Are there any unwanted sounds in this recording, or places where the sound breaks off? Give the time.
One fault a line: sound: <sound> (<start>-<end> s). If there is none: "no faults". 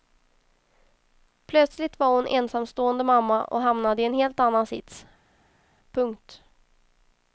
no faults